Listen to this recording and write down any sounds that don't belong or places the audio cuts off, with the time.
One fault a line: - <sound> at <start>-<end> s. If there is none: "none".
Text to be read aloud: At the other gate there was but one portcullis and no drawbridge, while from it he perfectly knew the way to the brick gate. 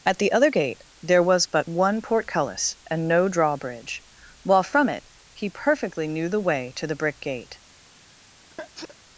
- sneeze at 8.5-9.0 s